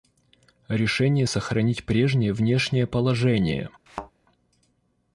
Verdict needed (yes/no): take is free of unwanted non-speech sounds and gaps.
no